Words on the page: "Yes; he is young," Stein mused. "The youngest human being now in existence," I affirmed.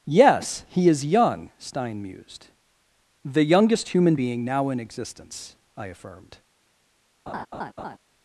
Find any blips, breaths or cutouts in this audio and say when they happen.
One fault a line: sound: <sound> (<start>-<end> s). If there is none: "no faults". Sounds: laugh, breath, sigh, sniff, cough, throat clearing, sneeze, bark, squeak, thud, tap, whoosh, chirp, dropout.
sound: laugh (7.3-8.0 s)